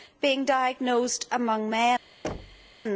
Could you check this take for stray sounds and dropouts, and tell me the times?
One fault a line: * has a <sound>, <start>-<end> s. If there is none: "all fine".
* has a thud, 2.2-2.7 s